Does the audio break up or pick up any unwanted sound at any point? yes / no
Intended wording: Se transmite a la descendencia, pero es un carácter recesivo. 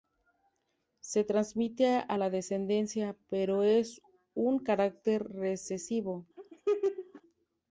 yes